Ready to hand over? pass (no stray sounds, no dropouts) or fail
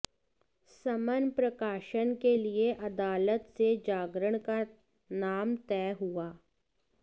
pass